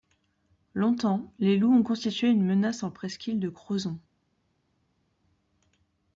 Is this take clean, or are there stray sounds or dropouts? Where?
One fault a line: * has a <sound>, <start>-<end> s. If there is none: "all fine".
all fine